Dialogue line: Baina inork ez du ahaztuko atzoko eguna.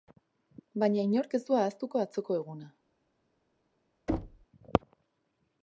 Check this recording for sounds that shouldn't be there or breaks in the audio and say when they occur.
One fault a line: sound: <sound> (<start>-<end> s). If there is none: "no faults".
sound: thud (4.1-4.5 s)